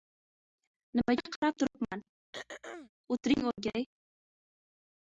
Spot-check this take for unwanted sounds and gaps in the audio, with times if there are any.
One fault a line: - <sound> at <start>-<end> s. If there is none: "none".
- throat clearing at 2.3-2.9 s